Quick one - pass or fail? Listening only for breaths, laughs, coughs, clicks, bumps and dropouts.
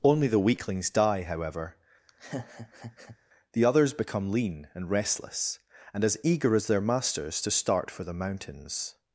fail